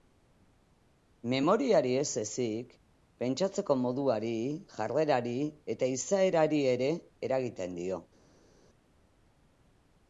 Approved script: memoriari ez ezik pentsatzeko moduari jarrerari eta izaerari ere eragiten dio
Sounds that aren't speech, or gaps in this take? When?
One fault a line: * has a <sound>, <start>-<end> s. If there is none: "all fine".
all fine